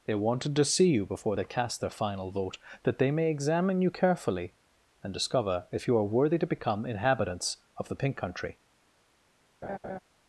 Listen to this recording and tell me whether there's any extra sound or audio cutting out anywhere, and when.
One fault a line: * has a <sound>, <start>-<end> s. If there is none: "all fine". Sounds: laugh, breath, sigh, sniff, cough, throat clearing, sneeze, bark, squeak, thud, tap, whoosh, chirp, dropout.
* has a laugh, 9.6-10.0 s